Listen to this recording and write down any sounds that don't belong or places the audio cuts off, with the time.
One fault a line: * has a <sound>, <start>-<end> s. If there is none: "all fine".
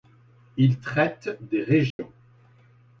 * has a dropout, 1.9-2.0 s